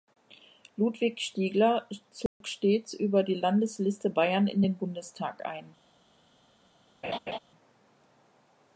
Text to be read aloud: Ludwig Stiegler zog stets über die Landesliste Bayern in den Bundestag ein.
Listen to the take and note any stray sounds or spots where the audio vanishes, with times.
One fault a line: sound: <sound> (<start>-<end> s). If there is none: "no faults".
sound: dropout (2.3-2.4 s)
sound: laugh (7.0-7.4 s)